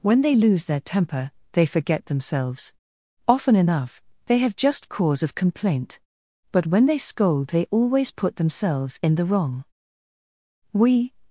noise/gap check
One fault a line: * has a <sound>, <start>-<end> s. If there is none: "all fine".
all fine